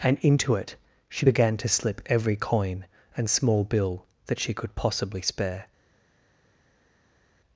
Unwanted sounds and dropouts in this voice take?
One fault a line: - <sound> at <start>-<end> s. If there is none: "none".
none